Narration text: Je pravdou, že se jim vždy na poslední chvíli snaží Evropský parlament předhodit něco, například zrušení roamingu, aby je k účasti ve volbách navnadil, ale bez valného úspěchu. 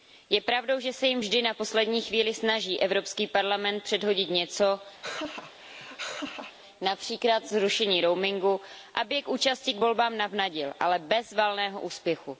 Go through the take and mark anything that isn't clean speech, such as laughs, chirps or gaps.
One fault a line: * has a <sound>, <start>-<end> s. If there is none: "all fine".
* has a laugh, 5.0-6.6 s